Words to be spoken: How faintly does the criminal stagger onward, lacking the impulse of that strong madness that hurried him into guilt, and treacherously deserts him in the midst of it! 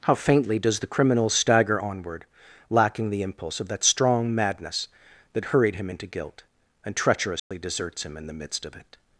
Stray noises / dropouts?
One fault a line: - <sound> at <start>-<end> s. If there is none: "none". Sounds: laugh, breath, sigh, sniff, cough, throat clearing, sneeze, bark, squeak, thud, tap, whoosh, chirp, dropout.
- dropout at 7.4-7.5 s